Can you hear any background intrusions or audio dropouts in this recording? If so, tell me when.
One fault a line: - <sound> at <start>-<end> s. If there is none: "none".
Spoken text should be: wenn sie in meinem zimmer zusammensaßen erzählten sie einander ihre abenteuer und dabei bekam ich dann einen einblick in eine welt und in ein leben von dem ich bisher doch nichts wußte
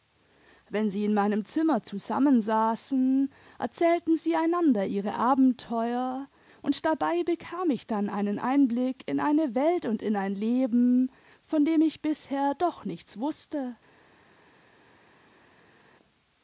none